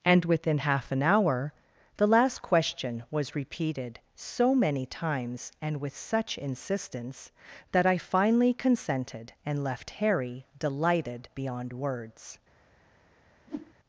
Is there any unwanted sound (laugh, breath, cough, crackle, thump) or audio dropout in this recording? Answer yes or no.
yes